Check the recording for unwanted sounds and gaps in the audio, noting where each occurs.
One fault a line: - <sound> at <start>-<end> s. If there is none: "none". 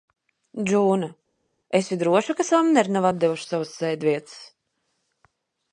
none